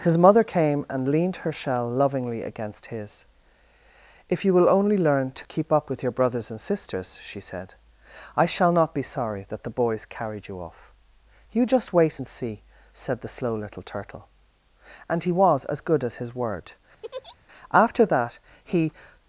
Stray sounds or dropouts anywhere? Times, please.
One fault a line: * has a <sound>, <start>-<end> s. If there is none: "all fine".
* has a laugh, 17.0-17.4 s